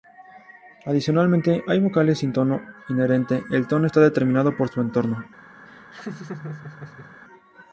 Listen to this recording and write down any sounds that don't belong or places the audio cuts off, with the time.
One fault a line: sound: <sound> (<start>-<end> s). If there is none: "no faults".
sound: laugh (5.7-7.2 s)